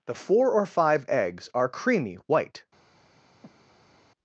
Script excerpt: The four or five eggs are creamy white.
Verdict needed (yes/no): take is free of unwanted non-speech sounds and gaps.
no